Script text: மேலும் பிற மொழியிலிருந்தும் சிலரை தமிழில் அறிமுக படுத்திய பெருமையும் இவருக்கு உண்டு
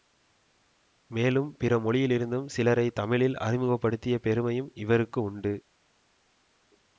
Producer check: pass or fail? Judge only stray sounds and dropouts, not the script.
pass